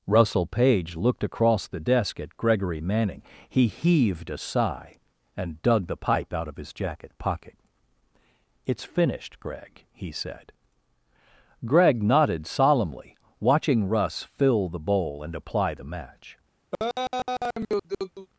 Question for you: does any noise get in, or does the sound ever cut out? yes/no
yes